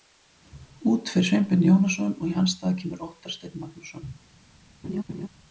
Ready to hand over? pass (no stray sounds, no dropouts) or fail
fail